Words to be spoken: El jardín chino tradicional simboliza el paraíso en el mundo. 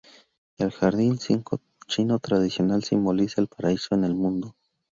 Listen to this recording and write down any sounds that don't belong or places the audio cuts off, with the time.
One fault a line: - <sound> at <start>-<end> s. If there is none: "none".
none